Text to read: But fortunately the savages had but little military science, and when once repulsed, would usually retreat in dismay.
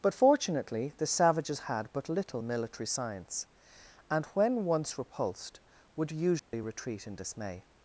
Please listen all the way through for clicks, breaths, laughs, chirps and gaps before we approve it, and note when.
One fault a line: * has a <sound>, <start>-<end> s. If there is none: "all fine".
* has a dropout, 6.4-6.5 s